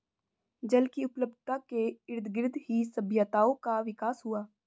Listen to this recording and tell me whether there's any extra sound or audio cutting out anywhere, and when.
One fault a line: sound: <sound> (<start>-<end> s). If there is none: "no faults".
no faults